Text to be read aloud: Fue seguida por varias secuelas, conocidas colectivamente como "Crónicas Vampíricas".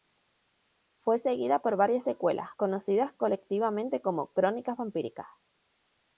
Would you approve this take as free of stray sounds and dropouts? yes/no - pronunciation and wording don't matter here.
yes